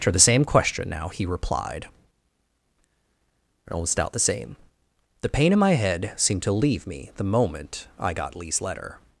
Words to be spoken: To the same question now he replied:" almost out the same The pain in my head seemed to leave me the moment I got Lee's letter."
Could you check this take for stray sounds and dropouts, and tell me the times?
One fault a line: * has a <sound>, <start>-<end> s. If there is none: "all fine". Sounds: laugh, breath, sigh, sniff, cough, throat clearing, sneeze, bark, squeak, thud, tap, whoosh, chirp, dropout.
all fine